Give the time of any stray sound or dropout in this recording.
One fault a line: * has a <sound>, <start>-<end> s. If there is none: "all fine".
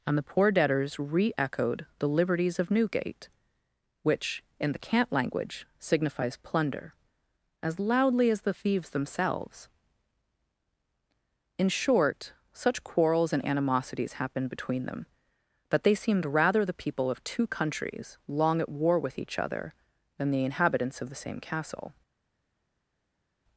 all fine